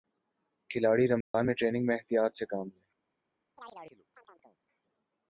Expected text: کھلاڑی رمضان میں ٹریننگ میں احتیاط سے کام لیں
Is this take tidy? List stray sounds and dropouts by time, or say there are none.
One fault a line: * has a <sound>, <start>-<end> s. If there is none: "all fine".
* has a dropout, 1.2-1.3 s
* has a chirp, 3.6-4.6 s